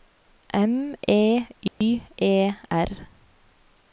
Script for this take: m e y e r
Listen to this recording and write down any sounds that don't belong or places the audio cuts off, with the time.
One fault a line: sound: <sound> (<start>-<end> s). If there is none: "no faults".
sound: dropout (1.7-1.8 s)